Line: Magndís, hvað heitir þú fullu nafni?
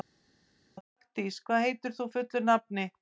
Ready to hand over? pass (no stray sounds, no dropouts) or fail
pass